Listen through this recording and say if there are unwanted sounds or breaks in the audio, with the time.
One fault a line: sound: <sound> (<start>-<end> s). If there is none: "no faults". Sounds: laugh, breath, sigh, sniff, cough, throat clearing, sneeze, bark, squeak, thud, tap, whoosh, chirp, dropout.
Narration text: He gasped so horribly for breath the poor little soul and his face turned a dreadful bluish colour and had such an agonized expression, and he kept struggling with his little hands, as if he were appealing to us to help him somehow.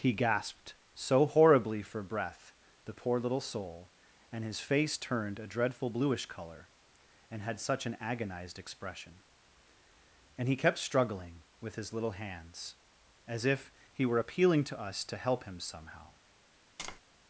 sound: tap (16.8-17.0 s)